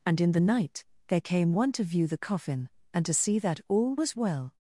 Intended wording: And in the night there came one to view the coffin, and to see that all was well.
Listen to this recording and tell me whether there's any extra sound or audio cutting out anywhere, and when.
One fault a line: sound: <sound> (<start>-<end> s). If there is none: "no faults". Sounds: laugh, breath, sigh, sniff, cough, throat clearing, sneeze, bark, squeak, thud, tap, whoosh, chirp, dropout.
no faults